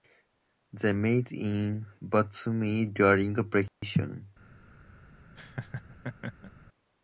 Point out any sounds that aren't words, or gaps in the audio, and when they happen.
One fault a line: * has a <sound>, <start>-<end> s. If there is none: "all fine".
* has a dropout, 3.7-3.8 s
* has a laugh, 5.4-6.5 s